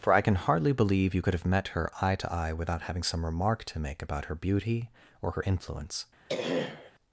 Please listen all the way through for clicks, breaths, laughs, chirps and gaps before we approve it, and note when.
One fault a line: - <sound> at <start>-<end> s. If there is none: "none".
- throat clearing at 6.3-6.9 s